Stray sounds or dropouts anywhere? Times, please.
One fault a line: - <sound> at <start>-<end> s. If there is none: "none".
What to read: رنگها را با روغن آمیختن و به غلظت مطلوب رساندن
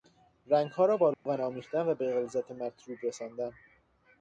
- dropout at 1.1-1.3 s